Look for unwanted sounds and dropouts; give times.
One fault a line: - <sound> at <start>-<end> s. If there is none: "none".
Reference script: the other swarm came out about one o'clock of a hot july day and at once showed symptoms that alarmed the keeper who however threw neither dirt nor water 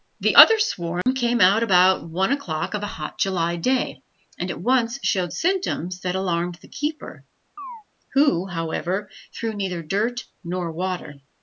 - dropout at 1.0-1.1 s
- chirp at 7.6-7.8 s